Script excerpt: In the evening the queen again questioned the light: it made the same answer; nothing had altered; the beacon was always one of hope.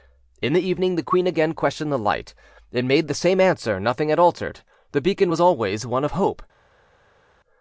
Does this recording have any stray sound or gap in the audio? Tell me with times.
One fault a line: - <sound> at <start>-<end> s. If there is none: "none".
none